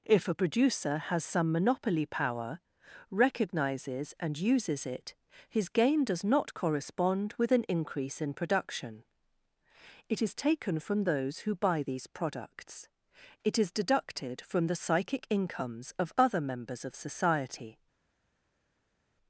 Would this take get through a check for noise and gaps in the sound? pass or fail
pass